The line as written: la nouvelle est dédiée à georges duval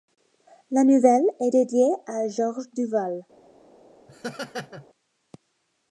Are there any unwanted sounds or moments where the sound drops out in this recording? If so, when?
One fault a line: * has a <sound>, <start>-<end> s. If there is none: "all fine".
* has a laugh, 4.1-4.9 s